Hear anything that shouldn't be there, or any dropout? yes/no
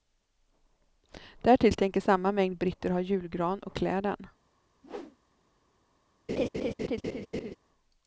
yes